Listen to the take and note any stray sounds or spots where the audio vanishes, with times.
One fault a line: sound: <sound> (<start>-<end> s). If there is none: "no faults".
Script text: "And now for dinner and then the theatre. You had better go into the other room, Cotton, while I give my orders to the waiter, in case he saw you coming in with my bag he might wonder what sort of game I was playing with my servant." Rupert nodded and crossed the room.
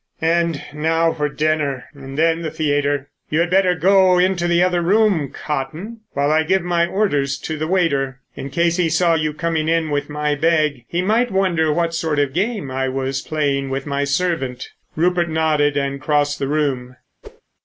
sound: whoosh (17.2-17.4 s)